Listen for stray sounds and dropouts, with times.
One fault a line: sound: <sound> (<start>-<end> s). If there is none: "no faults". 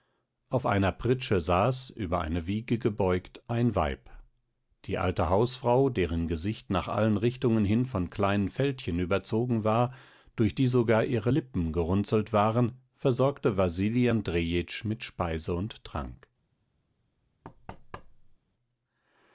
sound: thud (17.4-18.4 s)